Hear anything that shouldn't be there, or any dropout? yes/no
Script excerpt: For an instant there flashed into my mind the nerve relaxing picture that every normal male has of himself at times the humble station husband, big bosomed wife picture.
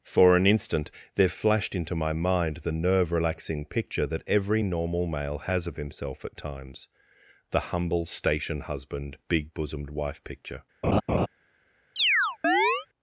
yes